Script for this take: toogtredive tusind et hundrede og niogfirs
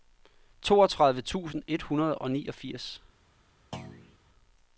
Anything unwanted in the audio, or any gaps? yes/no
yes